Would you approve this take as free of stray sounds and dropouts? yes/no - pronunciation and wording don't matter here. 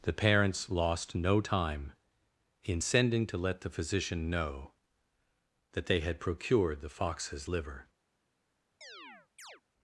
no